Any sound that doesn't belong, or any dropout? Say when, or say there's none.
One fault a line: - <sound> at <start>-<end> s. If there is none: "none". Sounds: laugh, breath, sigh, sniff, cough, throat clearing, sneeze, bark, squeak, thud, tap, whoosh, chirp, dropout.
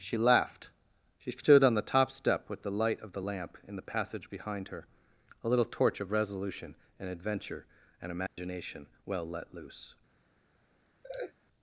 - dropout at 8.3-8.4 s
- laugh at 11.0-11.3 s